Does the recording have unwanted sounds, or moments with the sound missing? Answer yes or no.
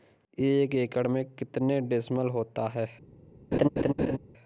yes